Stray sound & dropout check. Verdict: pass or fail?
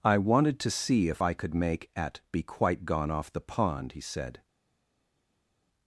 pass